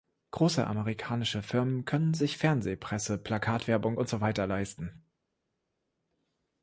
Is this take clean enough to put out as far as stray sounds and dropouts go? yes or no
yes